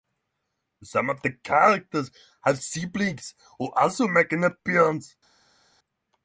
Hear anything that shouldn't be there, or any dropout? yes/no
no